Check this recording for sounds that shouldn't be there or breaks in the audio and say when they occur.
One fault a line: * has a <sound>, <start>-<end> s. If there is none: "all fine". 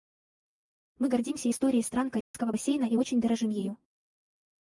* has a dropout, 2.2-2.3 s